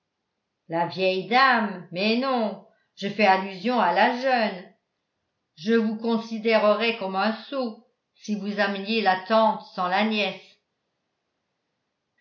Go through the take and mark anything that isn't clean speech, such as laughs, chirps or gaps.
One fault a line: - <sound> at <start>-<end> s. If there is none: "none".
none